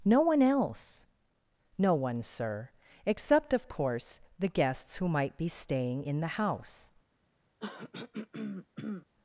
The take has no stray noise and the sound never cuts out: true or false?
false